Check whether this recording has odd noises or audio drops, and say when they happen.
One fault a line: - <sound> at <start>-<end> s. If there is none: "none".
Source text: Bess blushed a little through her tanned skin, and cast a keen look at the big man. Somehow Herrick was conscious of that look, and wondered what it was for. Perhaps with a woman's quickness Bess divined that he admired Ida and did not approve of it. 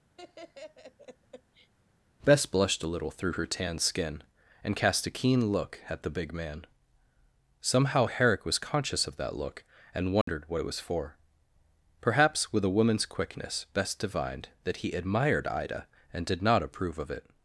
- laugh at 0.2-1.7 s
- dropout at 10.2-10.3 s